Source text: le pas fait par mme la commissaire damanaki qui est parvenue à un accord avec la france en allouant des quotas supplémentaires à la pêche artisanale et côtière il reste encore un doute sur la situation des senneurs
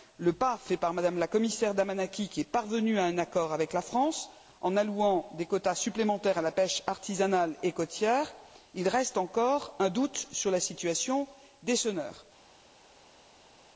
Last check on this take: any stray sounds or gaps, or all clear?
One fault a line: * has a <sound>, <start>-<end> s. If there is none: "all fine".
all fine